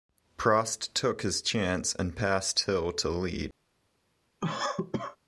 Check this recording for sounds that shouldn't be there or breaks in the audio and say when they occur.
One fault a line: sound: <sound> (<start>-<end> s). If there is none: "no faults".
sound: cough (4.4-5.2 s)